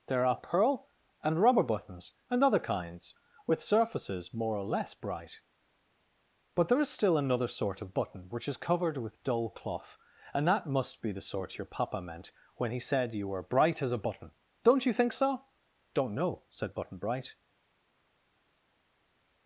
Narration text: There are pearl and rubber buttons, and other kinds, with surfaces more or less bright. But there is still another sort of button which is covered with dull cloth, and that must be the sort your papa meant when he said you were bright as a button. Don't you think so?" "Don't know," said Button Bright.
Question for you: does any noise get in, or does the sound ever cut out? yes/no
no